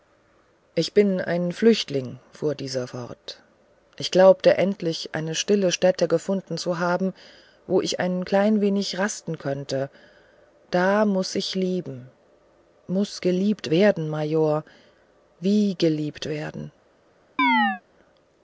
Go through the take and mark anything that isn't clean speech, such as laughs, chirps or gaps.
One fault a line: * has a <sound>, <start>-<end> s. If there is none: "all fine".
* has a chirp, 17.4-17.8 s